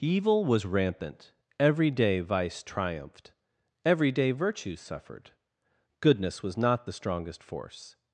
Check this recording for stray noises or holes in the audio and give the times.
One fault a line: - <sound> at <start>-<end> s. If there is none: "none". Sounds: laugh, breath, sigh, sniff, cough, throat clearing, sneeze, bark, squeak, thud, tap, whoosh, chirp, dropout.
none